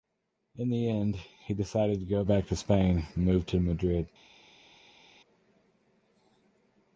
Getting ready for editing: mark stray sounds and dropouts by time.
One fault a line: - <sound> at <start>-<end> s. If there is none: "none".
none